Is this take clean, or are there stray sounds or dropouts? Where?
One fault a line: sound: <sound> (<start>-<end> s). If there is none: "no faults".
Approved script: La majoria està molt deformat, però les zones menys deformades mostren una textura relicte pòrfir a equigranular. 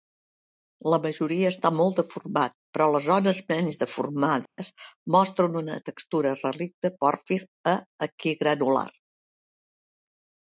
sound: dropout (4.5-4.6 s)